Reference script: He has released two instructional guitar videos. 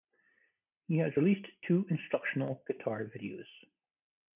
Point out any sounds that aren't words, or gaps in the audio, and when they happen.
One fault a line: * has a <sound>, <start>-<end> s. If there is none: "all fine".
all fine